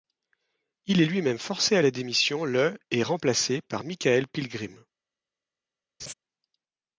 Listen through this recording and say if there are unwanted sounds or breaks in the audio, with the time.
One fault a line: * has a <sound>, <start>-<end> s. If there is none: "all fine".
* has a laugh, 6.0-6.1 s